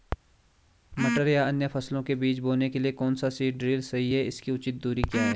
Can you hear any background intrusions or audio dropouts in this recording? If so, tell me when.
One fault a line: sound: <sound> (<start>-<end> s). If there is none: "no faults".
no faults